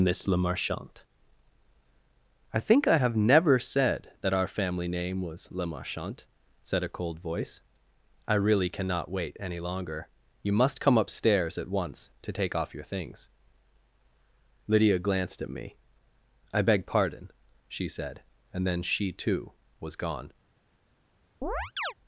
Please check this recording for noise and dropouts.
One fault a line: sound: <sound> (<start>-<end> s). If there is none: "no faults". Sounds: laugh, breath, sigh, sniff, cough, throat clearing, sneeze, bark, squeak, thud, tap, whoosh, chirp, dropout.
sound: chirp (21.4-21.9 s)